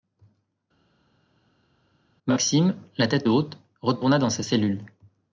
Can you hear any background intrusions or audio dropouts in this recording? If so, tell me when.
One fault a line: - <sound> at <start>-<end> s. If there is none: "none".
none